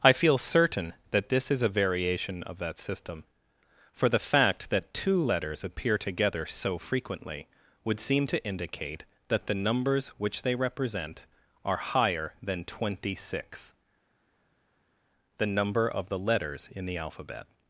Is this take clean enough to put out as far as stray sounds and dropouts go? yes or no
yes